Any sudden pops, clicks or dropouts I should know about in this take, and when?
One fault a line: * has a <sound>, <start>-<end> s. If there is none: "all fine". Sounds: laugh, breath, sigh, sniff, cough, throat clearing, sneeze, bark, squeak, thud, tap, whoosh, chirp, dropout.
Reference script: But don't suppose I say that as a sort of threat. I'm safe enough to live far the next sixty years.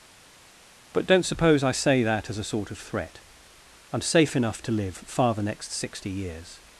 all fine